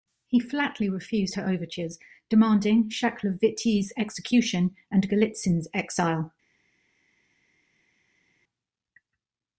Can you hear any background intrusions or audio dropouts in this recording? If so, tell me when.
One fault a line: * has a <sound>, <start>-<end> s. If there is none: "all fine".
all fine